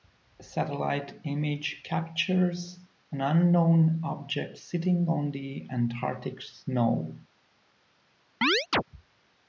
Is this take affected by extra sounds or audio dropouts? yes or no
yes